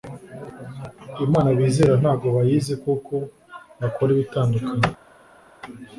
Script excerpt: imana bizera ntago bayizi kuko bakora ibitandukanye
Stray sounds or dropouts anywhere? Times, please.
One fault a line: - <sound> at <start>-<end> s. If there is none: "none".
none